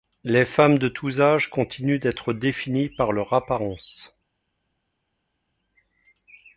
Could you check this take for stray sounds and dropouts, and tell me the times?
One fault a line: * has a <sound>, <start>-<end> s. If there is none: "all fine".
all fine